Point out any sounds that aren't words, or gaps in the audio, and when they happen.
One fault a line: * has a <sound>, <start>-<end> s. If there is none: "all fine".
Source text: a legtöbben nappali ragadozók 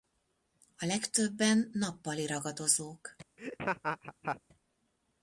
* has a laugh, 3.4-4.4 s